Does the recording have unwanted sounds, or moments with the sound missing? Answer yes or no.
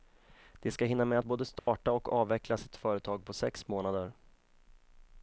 yes